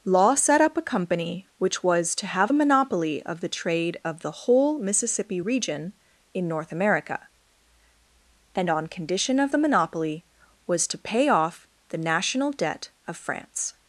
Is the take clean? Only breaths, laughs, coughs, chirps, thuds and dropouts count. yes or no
yes